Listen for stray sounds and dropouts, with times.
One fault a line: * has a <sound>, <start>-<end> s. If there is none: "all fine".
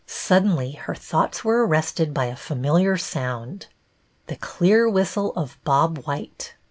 all fine